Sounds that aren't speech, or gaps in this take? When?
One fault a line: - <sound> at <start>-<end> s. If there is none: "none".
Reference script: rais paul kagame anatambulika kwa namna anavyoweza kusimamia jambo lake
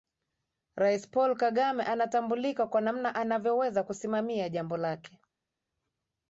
none